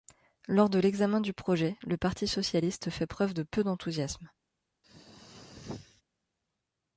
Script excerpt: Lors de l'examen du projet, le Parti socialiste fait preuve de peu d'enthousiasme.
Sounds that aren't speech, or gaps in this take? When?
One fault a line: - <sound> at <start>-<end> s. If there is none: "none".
- throat clearing at 4.8-6.0 s